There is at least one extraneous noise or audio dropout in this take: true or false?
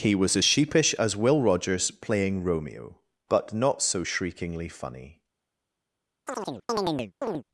true